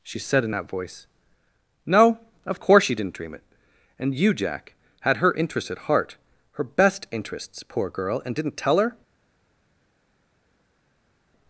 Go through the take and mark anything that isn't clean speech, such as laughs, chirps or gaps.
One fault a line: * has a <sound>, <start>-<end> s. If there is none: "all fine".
all fine